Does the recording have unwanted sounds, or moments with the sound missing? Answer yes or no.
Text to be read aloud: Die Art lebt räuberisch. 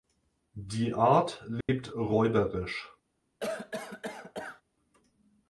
yes